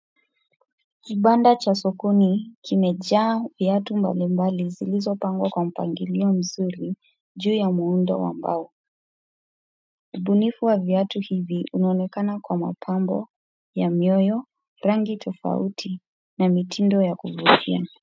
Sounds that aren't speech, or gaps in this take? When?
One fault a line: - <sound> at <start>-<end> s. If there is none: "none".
none